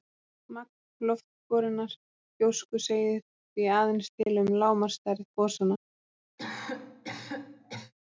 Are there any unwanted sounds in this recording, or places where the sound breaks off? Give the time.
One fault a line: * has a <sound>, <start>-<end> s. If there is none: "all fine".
* has a dropout, 4.2-4.3 s
* has a cough, 6.4-7.9 s